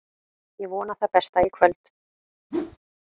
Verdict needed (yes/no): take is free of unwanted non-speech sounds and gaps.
no